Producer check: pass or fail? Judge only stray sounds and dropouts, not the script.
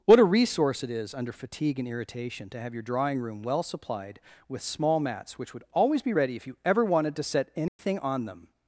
fail